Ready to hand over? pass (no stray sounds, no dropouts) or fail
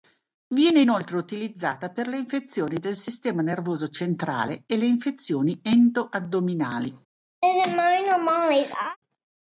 fail